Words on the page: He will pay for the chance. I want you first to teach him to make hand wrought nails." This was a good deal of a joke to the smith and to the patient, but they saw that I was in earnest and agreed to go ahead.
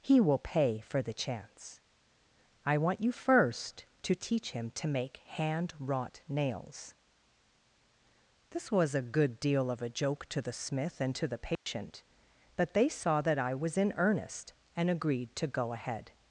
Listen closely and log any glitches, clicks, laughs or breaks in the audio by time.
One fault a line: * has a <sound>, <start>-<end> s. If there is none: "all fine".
* has a dropout, 11.6-11.7 s